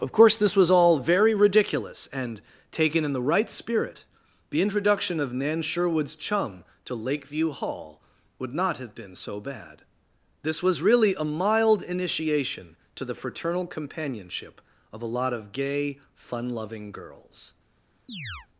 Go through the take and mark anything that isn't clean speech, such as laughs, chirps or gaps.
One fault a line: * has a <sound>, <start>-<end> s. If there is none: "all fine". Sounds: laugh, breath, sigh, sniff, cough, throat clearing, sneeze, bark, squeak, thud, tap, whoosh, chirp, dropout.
* has a chirp, 18.1-18.5 s